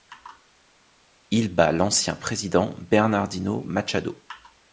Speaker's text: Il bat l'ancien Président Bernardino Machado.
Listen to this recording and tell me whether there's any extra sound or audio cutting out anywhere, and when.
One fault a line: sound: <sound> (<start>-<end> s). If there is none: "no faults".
no faults